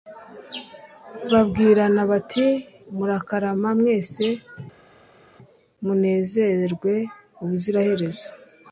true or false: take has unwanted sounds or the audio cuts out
false